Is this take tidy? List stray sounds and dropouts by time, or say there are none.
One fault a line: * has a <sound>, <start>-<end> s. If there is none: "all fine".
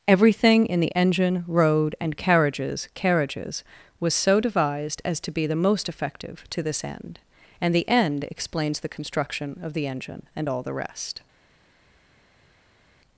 all fine